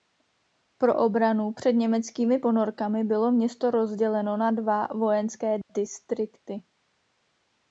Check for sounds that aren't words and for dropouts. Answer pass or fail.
fail